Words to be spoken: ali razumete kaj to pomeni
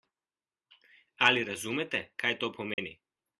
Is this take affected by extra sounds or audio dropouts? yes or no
yes